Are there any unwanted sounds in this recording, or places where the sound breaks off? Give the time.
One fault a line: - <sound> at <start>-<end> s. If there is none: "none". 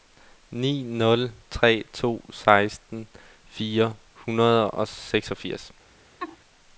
- laugh at 6.2-6.4 s